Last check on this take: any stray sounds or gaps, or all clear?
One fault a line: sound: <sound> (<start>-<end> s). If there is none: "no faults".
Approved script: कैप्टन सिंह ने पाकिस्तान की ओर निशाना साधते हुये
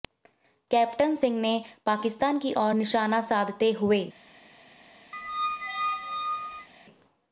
sound: squeak (5.1-6.7 s)